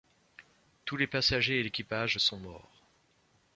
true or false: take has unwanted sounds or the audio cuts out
false